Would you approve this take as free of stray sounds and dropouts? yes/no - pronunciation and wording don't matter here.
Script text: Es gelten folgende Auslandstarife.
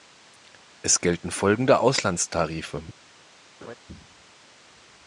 no